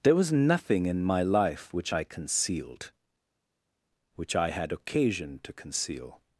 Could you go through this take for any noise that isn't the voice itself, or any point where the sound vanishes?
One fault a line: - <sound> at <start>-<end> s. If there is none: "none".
none